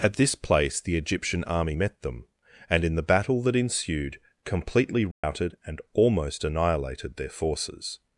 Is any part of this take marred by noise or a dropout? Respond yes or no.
yes